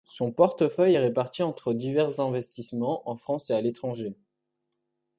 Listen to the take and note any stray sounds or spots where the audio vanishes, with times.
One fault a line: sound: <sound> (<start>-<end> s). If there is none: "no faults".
no faults